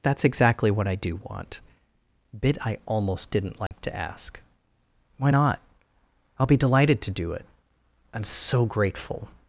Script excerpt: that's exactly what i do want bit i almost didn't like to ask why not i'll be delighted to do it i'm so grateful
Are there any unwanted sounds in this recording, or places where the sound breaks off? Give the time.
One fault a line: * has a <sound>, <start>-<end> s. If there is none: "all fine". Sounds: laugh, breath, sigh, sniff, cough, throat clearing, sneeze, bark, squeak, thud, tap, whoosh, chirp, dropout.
* has a dropout, 3.7-3.7 s